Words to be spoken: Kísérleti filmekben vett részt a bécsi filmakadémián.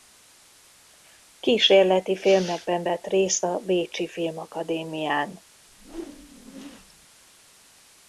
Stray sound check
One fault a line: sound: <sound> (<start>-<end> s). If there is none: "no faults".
sound: whoosh (5.7-7.1 s)